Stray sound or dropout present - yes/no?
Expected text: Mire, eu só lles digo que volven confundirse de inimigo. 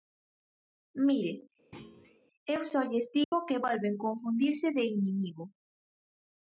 yes